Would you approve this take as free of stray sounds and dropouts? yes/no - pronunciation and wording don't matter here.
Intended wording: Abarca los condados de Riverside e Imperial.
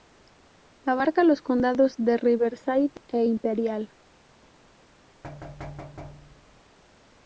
no